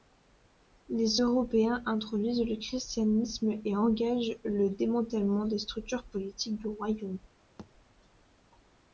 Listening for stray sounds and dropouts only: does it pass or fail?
fail